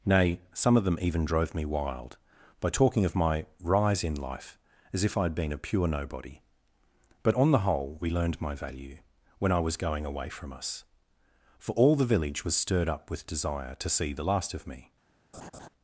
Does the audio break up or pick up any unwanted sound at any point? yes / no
yes